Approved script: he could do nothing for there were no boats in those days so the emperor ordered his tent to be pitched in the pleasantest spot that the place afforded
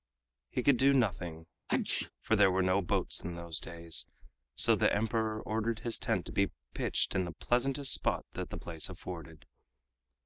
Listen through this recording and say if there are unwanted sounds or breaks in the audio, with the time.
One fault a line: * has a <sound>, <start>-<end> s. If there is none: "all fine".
* has a sneeze, 1.7-2.1 s